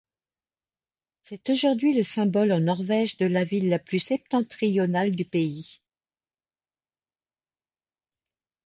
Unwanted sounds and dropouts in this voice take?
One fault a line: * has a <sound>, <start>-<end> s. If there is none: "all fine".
all fine